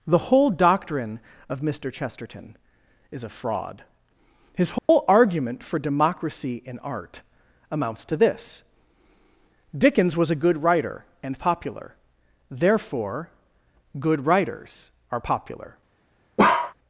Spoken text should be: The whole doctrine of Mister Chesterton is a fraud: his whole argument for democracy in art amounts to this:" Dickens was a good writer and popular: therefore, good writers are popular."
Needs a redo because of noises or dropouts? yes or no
yes